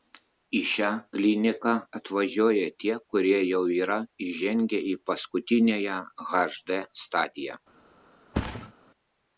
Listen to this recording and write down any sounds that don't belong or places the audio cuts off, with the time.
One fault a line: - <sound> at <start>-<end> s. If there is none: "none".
- thud at 8.3-8.7 s